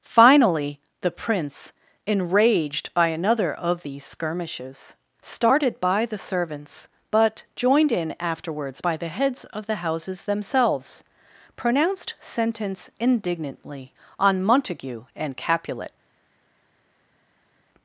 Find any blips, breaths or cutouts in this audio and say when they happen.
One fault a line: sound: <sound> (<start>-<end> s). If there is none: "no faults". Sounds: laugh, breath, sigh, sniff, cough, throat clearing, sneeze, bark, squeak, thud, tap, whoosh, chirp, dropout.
no faults